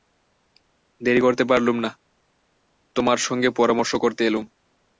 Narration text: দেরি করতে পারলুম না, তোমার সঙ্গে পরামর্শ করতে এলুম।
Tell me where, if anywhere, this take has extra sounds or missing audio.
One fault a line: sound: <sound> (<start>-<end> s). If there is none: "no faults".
no faults